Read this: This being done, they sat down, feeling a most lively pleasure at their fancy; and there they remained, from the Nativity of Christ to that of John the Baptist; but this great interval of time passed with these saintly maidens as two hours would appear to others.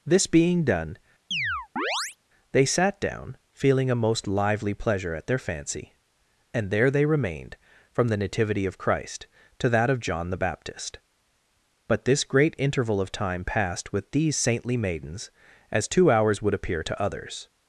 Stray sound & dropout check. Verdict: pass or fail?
fail